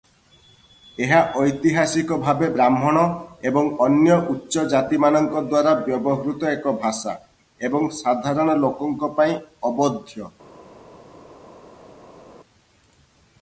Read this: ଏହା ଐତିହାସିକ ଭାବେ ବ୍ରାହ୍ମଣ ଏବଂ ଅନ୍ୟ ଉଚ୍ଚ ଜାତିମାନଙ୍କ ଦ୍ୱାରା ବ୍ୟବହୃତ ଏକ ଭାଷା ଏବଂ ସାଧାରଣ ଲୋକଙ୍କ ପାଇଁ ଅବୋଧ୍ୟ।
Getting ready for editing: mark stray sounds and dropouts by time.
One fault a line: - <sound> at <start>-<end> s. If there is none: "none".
none